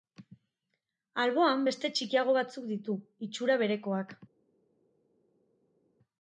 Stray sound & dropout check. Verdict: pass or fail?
pass